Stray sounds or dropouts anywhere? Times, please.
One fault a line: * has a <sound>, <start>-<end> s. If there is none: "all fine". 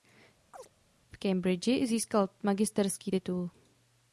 * has a chirp, 0.5-0.7 s